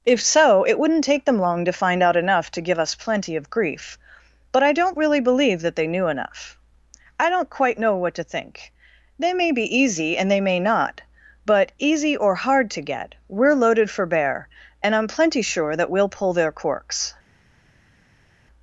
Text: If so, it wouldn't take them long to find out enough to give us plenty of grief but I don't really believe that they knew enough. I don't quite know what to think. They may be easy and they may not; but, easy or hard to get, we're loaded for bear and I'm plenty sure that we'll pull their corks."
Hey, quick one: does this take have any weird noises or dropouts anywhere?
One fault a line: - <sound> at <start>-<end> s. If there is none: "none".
none